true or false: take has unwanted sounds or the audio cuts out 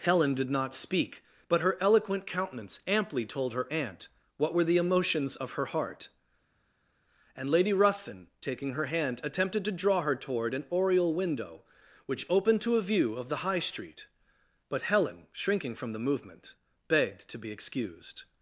false